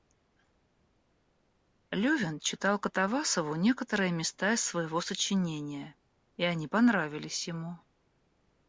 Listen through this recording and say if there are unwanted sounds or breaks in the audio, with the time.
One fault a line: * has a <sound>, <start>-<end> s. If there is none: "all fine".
all fine